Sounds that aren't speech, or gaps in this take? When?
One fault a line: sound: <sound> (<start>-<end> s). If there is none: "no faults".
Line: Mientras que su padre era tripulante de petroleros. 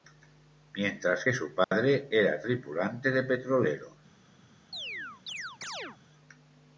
sound: dropout (1.6-1.7 s)
sound: chirp (4.7-6.0 s)